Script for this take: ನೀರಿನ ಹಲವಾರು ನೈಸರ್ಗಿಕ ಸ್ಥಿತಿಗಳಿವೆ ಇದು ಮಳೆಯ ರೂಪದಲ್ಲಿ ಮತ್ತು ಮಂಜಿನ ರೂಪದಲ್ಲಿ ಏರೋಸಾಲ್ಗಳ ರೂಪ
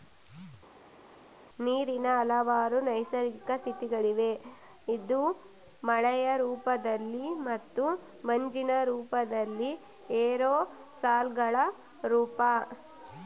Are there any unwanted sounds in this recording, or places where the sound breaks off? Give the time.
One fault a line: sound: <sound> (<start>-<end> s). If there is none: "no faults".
no faults